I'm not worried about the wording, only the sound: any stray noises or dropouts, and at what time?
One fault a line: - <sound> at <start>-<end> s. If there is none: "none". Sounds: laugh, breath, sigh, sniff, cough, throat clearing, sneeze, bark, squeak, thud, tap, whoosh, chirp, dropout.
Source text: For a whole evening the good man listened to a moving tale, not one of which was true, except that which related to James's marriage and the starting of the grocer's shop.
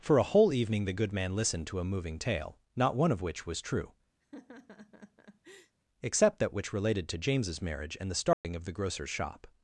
- laugh at 4.2-5.8 s
- dropout at 8.3-8.4 s